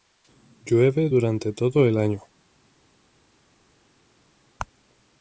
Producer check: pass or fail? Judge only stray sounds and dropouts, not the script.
pass